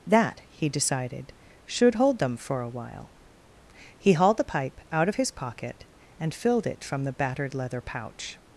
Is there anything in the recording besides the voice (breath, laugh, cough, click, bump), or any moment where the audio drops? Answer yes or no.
no